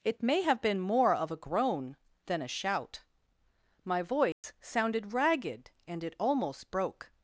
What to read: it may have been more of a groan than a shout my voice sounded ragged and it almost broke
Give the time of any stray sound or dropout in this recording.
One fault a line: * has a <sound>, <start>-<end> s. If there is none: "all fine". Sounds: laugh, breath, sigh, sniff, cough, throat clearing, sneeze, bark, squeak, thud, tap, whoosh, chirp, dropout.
* has a dropout, 4.3-4.4 s